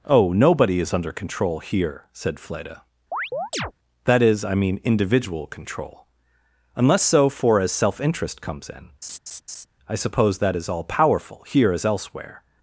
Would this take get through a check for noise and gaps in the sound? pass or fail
fail